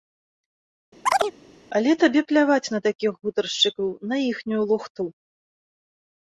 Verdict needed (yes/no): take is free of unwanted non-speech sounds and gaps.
no